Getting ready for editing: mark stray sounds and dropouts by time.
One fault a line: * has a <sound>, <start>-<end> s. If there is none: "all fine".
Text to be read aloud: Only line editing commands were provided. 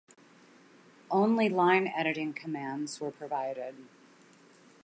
all fine